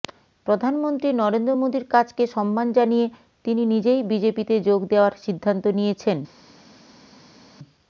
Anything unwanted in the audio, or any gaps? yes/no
no